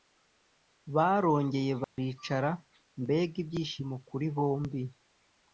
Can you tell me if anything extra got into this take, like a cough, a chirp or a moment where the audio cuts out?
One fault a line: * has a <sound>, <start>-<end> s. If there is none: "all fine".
* has a dropout, 1.8-2.0 s